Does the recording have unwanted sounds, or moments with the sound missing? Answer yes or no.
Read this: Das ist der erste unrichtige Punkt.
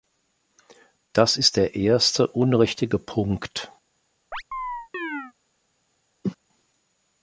yes